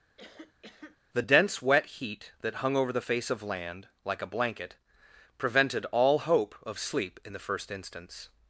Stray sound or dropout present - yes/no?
yes